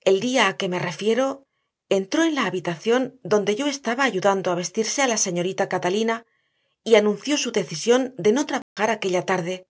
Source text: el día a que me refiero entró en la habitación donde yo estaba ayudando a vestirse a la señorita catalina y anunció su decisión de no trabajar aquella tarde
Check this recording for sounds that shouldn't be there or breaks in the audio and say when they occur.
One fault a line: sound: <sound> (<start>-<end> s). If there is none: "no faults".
sound: dropout (8.6-8.8 s)